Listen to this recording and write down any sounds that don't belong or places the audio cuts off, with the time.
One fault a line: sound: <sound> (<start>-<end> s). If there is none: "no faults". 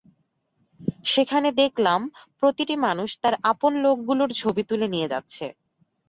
no faults